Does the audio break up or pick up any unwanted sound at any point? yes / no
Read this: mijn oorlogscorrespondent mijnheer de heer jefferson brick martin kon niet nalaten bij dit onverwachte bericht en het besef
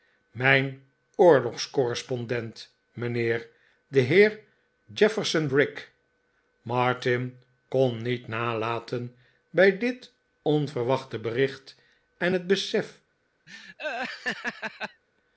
yes